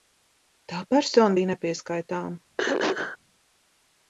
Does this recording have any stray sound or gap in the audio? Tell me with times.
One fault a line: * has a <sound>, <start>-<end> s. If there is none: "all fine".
* has a throat clearing, 2.6-3.2 s